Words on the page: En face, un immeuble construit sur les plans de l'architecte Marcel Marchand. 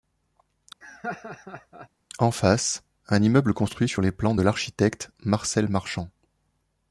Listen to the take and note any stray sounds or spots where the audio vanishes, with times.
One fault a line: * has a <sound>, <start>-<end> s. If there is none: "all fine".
* has a laugh, 0.8-1.9 s